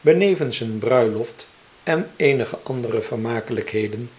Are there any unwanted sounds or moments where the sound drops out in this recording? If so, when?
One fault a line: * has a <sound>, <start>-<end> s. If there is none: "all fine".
all fine